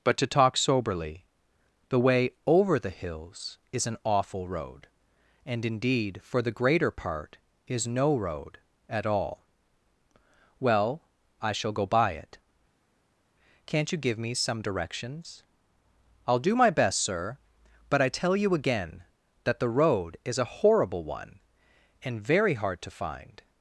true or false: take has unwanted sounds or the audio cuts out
false